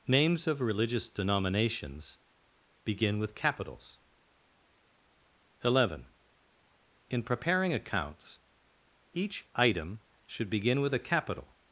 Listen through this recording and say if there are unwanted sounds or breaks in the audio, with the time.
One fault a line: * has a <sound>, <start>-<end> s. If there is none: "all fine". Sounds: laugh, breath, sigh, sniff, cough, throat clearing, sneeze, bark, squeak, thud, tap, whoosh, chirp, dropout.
all fine